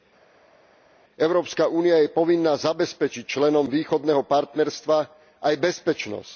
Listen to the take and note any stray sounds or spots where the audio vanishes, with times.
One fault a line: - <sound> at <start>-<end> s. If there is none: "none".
none